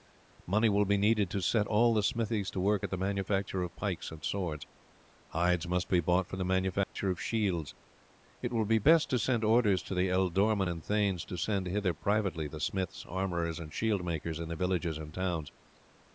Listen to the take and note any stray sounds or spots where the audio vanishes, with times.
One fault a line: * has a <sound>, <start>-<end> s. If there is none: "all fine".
* has a dropout, 6.8-7.0 s